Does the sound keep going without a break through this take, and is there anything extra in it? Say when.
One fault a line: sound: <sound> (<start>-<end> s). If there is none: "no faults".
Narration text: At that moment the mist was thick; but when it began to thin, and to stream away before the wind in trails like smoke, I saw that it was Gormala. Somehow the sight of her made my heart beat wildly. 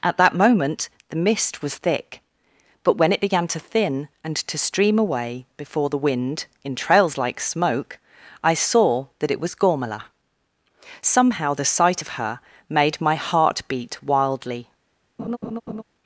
sound: laugh (15.2-15.8 s)